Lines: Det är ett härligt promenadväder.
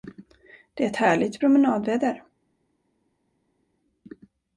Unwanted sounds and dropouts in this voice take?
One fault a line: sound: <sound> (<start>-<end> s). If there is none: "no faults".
no faults